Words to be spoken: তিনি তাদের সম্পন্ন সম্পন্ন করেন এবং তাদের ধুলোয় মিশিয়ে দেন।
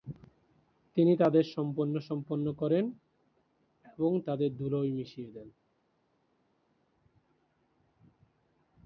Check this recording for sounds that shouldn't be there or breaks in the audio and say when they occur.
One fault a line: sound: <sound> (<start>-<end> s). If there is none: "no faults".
no faults